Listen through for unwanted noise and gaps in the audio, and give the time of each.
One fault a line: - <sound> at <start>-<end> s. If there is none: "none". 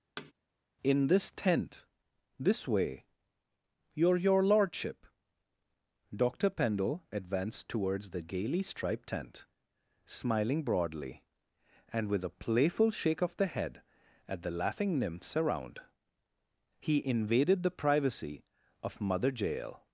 - thud at 0.2-0.3 s